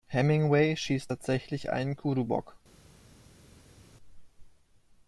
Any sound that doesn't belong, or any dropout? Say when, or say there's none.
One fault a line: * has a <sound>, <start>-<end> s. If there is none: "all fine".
all fine